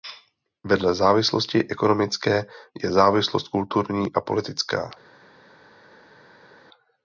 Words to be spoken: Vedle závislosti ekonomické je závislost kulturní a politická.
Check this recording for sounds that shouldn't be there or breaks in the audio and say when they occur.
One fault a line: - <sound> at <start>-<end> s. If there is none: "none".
none